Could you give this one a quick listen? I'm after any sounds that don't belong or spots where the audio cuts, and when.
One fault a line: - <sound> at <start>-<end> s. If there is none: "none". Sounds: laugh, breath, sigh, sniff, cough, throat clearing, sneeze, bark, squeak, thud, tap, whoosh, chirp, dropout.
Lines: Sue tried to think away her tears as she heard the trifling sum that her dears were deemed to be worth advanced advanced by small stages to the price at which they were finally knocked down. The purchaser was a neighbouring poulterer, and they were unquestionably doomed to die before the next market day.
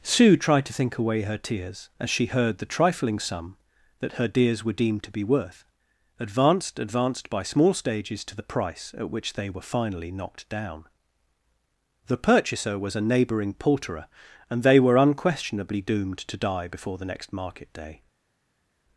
none